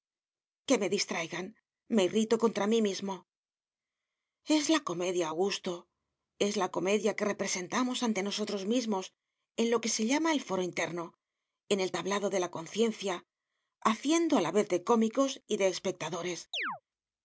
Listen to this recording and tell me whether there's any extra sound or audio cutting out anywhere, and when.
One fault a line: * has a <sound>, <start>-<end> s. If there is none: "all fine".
* has a chirp, 16.5-16.8 s